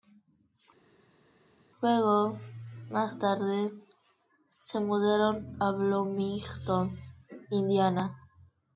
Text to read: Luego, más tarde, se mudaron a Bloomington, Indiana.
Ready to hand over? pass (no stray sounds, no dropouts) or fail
pass